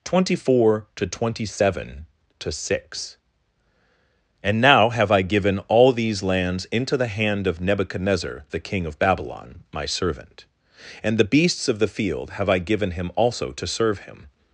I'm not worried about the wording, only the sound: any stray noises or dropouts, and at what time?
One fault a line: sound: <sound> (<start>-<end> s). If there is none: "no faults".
no faults